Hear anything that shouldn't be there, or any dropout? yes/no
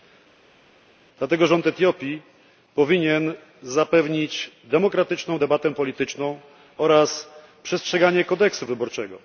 no